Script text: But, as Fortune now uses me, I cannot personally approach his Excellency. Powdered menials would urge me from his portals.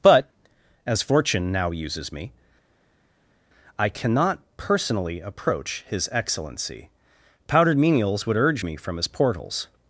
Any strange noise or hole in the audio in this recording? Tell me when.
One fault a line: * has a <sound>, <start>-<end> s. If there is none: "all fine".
all fine